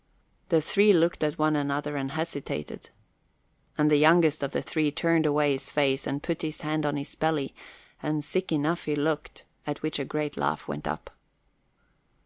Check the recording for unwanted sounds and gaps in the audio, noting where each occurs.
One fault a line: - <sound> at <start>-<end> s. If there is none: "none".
none